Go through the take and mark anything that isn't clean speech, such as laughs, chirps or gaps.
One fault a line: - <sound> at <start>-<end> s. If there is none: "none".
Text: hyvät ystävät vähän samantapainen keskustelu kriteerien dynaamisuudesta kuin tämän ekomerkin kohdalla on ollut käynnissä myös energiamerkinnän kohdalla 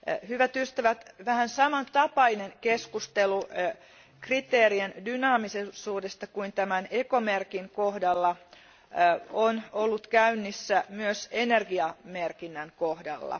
none